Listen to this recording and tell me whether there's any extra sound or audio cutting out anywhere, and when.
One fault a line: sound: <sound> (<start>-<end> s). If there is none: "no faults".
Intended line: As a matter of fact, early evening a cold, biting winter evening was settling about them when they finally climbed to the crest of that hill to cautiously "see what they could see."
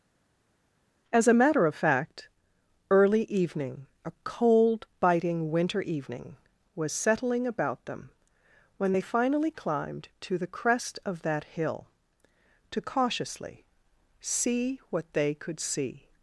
no faults